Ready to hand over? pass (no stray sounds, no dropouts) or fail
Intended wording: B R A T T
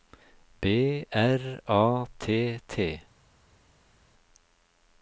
pass